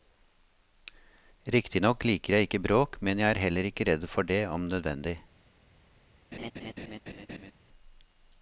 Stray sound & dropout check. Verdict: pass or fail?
fail